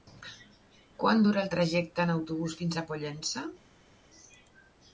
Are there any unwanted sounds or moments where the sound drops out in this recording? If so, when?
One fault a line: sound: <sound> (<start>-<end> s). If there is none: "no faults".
no faults